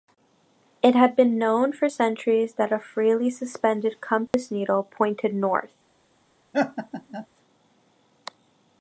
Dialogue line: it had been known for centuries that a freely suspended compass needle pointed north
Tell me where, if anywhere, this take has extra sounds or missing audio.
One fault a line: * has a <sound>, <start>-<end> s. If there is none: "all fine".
* has a dropout, 4.3-4.3 s
* has a laugh, 6.5-7.3 s